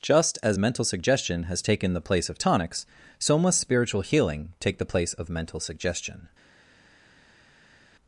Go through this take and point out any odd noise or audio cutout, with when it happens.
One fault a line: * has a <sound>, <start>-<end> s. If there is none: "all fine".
all fine